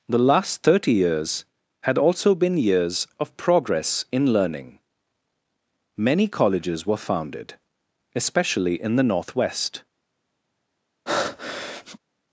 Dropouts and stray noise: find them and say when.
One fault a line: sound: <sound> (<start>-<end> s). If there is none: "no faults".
sound: breath (11.1-12.0 s)